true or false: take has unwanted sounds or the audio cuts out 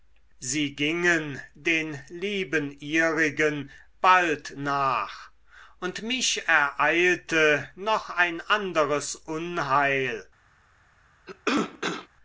true